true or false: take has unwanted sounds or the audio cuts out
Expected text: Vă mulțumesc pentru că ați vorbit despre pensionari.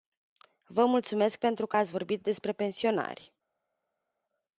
false